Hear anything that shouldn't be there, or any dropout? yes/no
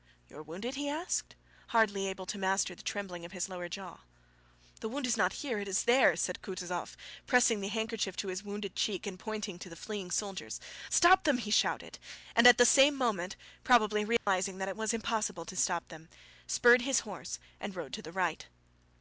yes